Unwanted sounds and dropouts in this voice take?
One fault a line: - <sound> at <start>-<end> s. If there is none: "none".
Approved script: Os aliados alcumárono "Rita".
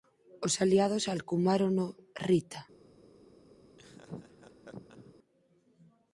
- laugh at 3.8-5.1 s